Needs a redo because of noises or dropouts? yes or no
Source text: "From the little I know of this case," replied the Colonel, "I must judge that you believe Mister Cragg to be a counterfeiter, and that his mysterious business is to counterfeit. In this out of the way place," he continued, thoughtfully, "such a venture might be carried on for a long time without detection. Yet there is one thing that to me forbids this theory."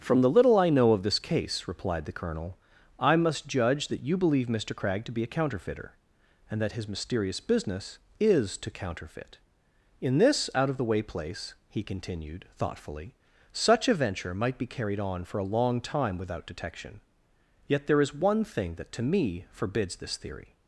no